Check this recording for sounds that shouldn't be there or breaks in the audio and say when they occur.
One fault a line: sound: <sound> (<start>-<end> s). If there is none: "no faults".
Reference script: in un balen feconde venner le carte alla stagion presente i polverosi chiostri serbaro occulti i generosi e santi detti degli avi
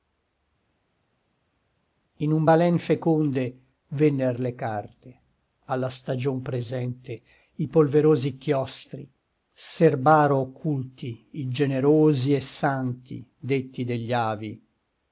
no faults